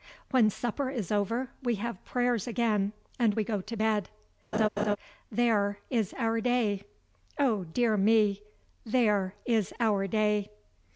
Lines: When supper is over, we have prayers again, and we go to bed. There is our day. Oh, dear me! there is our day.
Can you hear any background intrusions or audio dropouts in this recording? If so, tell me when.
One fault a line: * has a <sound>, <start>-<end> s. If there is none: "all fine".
* has a laugh, 4.5-5.0 s